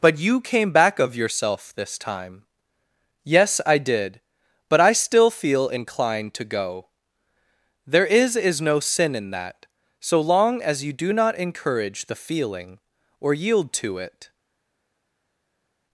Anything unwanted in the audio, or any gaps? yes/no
no